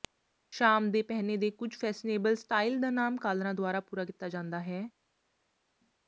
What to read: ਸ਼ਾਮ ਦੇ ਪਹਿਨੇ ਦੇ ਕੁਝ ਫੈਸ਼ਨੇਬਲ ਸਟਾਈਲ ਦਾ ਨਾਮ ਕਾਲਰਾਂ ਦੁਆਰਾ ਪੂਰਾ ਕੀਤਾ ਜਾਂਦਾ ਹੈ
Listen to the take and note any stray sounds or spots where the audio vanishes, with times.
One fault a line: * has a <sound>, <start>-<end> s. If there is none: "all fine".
all fine